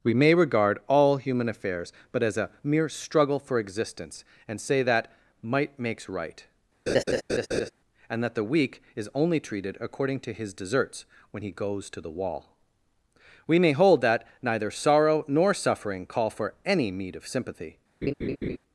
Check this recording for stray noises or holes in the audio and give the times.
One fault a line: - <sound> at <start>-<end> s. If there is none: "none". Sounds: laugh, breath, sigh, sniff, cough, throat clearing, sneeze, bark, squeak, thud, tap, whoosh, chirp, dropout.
- laugh at 6.9-7.7 s
- laugh at 18.0-18.6 s